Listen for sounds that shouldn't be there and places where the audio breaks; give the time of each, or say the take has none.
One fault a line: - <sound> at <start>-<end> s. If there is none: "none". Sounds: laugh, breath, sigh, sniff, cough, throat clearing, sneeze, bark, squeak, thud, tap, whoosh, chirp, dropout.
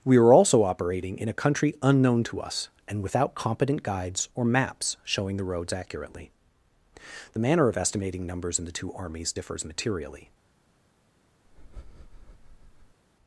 - breath at 11.4-13.0 s